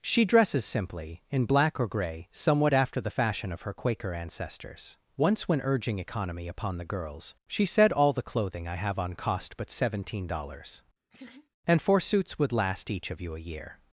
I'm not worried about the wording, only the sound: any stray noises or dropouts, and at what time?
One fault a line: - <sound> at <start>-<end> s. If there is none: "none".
- laugh at 11.1-11.5 s